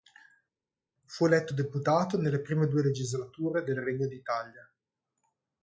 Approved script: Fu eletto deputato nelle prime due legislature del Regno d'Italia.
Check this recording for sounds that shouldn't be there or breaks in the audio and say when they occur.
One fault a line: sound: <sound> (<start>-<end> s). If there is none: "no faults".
no faults